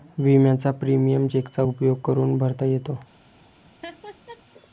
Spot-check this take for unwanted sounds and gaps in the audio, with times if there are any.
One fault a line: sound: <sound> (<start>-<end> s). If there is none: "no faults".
sound: laugh (3.8-4.4 s)